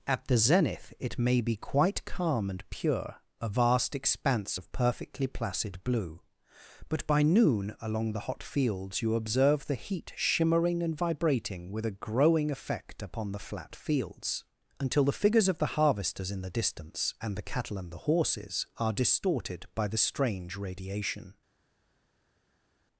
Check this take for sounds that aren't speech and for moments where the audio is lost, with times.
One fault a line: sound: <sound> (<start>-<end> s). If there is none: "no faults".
no faults